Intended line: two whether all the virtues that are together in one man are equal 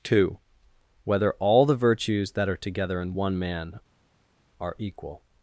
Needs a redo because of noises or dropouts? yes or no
no